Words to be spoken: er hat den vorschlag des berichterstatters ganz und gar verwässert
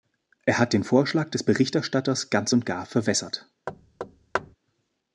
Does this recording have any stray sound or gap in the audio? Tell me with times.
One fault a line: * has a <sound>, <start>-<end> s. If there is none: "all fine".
* has a thud, 3.7-4.6 s